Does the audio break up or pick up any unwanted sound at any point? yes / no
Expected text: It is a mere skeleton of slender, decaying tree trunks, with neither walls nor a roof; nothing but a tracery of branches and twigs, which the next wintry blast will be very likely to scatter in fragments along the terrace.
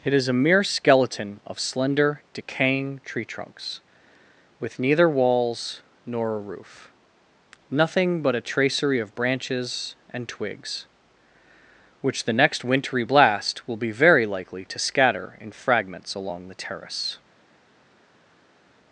no